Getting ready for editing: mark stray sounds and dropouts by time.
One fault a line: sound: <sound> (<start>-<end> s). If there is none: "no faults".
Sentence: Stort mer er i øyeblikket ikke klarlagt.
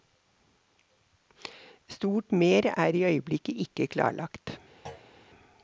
sound: thud (4.9-5.1 s)